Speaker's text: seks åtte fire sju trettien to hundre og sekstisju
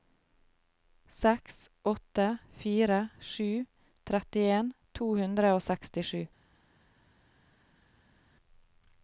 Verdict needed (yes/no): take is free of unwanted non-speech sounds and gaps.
yes